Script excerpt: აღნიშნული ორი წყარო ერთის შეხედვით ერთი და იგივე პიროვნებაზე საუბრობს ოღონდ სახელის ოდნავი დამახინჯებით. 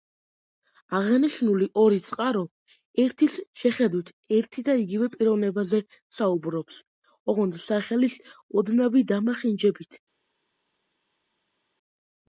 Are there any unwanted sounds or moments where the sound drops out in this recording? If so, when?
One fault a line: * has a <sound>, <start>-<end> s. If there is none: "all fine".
all fine